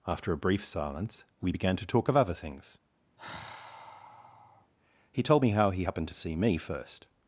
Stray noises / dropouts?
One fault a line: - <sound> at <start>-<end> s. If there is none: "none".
- sigh at 3.2-4.7 s